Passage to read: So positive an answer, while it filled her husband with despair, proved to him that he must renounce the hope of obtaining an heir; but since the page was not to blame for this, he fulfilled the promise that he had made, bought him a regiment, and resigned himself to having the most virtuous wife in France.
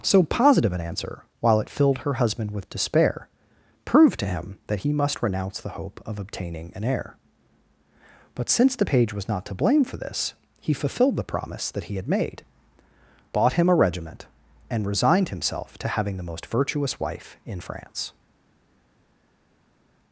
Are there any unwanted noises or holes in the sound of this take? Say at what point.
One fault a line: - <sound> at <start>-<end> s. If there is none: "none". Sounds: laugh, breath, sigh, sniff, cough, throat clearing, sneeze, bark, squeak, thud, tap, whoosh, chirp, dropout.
none